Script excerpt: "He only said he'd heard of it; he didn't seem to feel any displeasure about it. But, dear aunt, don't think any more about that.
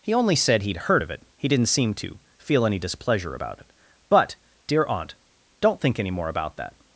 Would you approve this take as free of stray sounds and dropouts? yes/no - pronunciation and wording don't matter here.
yes